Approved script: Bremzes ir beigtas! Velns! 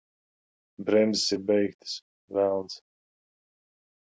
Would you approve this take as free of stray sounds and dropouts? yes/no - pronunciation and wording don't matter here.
yes